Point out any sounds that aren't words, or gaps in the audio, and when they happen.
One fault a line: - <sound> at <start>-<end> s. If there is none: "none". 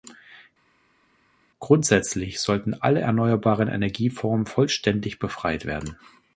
none